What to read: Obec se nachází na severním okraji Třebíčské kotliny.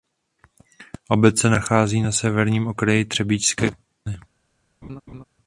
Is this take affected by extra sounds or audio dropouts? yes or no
yes